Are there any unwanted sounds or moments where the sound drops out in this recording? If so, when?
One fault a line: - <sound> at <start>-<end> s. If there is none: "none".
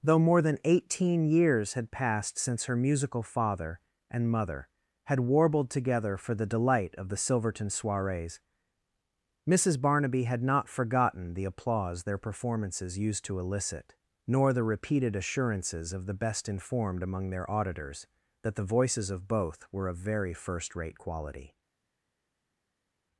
none